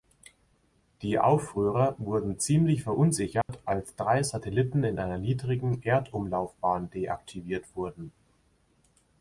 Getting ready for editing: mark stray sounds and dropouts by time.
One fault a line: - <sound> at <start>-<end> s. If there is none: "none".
- dropout at 3.4-3.5 s